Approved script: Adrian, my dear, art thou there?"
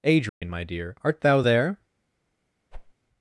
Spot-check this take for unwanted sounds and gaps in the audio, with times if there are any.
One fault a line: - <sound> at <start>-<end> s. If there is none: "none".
- dropout at 0.3-0.4 s
- whoosh at 2.7-2.9 s